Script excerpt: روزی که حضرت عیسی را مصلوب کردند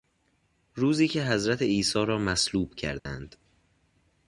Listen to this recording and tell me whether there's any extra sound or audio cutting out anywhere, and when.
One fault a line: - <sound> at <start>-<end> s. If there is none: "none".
- dropout at 3.0-3.1 s